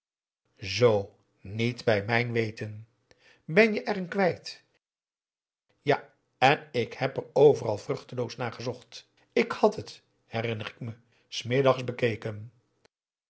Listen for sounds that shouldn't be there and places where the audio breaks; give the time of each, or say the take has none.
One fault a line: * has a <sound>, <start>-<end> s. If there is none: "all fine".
all fine